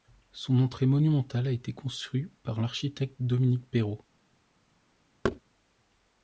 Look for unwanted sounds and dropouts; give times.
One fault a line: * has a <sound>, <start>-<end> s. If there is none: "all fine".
* has a thud, 5.2-5.4 s